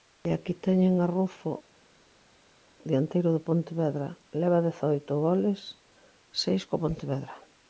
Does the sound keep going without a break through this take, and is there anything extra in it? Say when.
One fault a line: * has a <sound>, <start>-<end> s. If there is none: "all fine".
all fine